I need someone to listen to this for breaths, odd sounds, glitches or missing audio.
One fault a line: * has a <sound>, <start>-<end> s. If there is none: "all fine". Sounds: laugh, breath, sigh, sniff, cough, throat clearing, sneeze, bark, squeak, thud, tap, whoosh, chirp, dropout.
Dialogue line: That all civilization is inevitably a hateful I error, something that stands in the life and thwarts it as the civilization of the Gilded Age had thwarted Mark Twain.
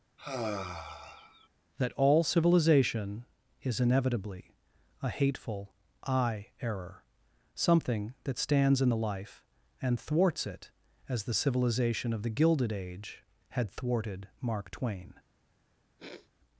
* has a sigh, 0.2-1.5 s
* has a sniff, 16.0-16.3 s